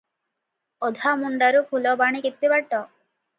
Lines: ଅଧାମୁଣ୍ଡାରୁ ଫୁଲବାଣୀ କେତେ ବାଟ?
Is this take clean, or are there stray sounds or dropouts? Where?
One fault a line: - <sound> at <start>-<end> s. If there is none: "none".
none